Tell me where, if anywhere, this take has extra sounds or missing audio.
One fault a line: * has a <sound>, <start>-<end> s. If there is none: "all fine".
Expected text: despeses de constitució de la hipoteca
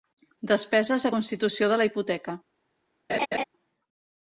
* has a laugh, 3.1-3.4 s